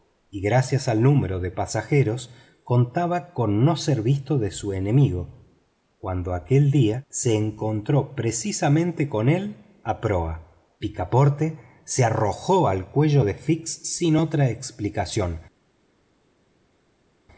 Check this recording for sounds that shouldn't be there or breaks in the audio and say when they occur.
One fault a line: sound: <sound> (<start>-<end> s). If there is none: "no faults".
no faults